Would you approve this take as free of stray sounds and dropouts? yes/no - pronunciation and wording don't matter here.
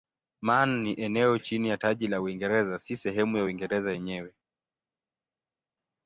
yes